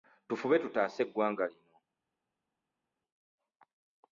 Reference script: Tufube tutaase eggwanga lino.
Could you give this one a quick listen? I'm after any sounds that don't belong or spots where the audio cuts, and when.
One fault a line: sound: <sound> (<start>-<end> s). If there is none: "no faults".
no faults